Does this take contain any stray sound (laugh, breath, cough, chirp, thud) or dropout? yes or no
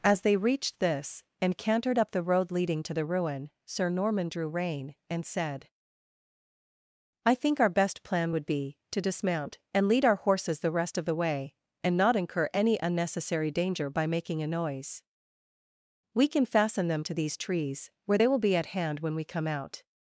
no